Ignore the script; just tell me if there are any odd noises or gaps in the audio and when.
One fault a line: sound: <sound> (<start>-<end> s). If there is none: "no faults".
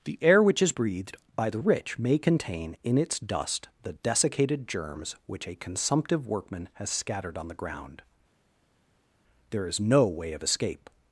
no faults